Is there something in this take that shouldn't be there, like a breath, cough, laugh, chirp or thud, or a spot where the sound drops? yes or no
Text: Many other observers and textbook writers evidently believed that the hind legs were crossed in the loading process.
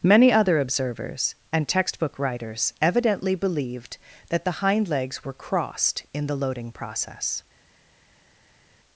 no